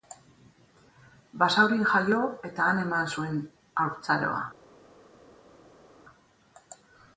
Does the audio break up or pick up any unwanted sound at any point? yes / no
no